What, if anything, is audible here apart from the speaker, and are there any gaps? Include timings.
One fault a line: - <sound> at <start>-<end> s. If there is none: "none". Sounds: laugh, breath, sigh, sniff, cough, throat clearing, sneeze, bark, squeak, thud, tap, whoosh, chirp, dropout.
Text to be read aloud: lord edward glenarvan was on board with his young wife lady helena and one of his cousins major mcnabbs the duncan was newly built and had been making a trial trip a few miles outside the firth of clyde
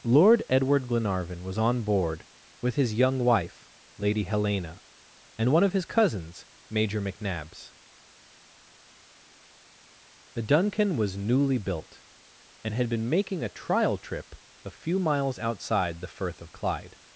none